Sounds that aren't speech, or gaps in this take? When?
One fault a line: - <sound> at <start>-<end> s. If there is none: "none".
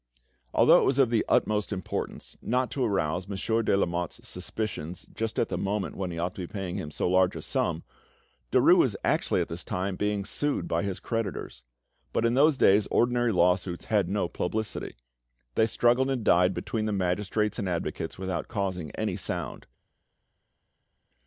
none